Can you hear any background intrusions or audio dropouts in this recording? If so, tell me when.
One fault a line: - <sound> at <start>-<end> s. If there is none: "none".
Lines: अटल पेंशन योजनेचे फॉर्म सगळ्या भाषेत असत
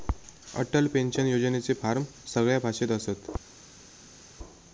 none